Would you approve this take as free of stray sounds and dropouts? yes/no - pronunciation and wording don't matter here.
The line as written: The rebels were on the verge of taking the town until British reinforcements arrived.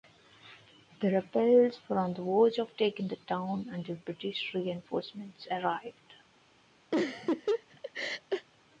no